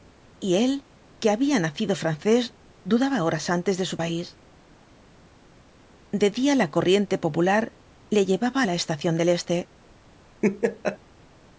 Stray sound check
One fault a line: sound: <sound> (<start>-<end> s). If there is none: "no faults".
sound: laugh (10.4-11.0 s)